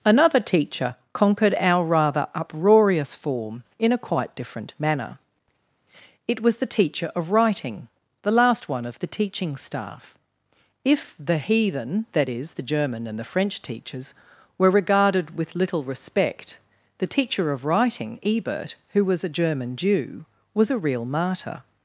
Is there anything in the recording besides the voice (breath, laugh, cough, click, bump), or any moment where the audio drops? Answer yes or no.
no